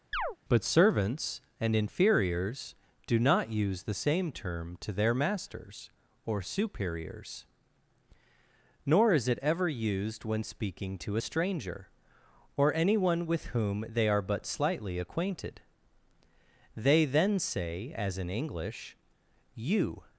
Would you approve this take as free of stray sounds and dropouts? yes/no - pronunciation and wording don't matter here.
no